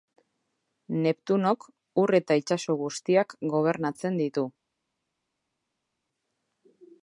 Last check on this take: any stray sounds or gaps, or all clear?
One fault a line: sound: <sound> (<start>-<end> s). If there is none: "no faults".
no faults